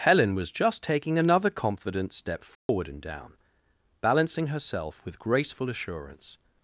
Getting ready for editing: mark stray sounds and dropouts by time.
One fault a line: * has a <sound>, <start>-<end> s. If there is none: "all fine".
* has a dropout, 2.5-2.7 s